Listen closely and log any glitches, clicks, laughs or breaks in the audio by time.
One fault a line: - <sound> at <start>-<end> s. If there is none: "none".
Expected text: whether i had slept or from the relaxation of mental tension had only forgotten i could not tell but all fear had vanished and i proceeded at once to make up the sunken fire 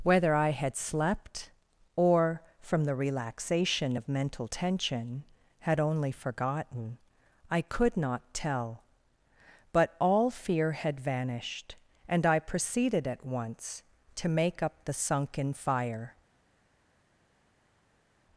none